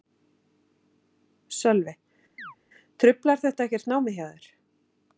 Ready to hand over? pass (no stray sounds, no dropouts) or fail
fail